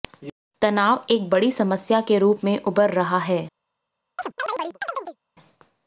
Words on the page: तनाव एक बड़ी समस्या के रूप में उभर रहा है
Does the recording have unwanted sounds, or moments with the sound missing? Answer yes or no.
yes